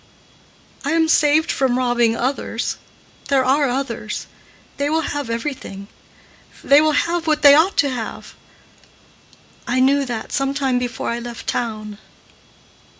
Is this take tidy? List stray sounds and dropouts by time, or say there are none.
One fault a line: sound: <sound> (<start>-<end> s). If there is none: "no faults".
no faults